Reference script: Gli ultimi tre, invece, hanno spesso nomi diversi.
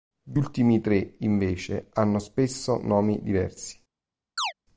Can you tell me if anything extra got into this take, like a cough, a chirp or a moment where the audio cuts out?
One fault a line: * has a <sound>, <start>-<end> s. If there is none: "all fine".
* has a chirp, 4.4-4.5 s